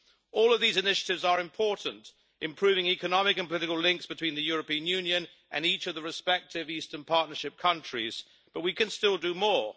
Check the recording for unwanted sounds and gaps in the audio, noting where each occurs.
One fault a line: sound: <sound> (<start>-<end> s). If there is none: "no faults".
no faults